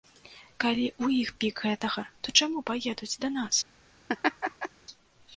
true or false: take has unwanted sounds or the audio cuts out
true